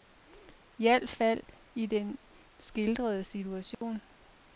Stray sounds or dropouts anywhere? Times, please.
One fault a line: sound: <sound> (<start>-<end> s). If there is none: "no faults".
sound: dropout (3.7-3.8 s)